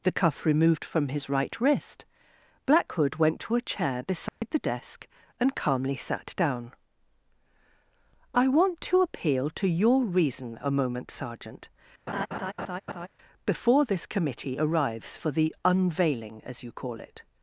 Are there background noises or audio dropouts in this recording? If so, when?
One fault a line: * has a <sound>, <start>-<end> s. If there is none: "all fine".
* has a dropout, 4.3-4.4 s
* has a laugh, 12.1-13.1 s